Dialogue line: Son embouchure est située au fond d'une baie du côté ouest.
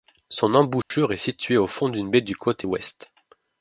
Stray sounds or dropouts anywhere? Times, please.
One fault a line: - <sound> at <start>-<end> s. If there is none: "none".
- dropout at 0.8-0.9 s